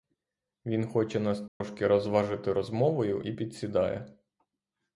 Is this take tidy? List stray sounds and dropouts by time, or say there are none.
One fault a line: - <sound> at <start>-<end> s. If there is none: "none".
- dropout at 1.5-1.6 s